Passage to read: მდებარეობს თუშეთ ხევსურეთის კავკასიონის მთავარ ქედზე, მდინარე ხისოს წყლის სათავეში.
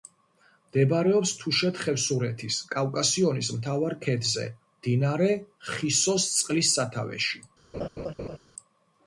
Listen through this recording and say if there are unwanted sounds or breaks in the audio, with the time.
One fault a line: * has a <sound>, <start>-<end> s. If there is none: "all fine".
* has a laugh, 7.7-8.4 s